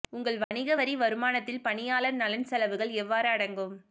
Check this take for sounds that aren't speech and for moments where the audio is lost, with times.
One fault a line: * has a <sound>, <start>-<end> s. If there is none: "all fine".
* has a dropout, 0.4-0.5 s